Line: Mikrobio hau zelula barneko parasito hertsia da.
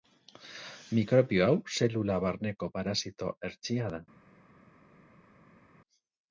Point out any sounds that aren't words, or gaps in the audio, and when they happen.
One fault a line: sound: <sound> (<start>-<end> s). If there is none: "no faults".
no faults